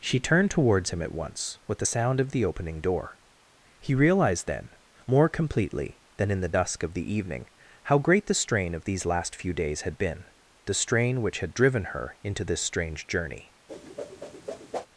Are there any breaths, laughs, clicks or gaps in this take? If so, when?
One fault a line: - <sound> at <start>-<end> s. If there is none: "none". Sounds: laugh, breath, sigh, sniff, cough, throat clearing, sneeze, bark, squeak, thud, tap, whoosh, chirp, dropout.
- whoosh at 13.7-14.9 s